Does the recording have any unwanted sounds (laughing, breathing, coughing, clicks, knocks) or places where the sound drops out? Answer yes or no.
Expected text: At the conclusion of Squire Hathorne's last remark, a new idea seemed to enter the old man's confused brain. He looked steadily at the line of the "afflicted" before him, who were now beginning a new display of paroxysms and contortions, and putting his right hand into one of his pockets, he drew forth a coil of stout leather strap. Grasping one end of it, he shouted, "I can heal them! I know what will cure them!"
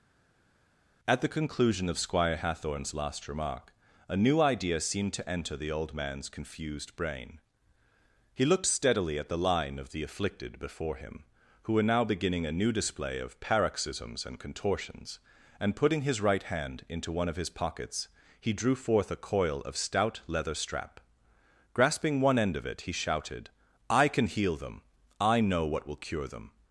no